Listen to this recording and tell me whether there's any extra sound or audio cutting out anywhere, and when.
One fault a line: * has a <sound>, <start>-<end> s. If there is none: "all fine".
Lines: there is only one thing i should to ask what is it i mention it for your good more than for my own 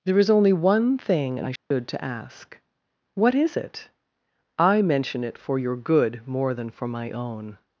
* has a dropout, 1.6-1.7 s